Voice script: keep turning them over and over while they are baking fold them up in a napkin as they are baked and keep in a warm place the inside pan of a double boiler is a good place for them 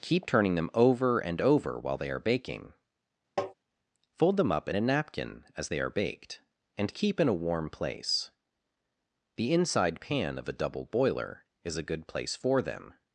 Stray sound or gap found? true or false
true